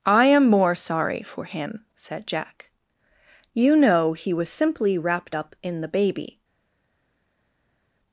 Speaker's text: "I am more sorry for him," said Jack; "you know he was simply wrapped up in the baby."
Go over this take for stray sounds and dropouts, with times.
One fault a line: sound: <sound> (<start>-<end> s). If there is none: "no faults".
no faults